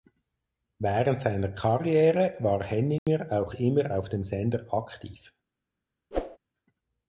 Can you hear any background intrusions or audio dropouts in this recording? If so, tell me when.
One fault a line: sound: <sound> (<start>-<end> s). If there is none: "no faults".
sound: dropout (3.0-3.1 s)
sound: whoosh (6.1-6.4 s)